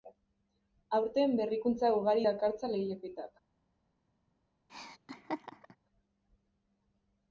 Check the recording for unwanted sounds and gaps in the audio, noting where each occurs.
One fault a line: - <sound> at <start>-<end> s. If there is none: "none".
- laugh at 4.7-5.8 s